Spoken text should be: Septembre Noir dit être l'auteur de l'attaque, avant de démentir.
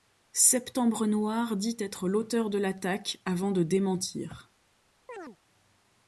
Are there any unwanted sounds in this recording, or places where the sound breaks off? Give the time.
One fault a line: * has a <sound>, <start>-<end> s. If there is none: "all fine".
* has a chirp, 5.1-5.4 s